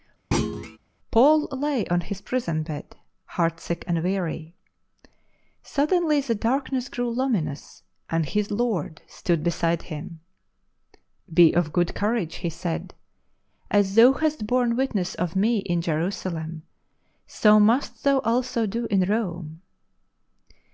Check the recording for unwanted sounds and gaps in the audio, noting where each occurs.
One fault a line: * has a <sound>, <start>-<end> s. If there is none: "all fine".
* has a thud, 0.3-0.8 s